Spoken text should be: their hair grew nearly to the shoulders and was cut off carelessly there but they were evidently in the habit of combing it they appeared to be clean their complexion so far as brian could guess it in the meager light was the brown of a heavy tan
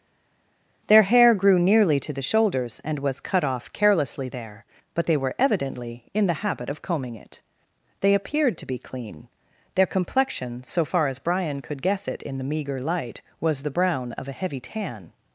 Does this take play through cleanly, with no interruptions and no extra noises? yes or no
yes